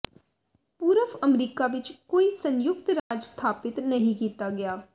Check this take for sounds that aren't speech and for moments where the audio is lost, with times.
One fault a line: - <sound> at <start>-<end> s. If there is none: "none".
- dropout at 3.0-3.1 s